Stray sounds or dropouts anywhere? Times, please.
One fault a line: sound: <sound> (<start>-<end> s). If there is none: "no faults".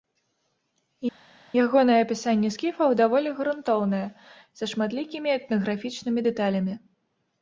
no faults